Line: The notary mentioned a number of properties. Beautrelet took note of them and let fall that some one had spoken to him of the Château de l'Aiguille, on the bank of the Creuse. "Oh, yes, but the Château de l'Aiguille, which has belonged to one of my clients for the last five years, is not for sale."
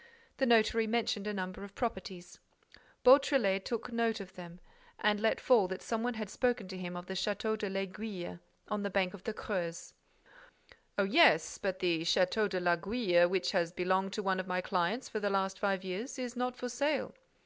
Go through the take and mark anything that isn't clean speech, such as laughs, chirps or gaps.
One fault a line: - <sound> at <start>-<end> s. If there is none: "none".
none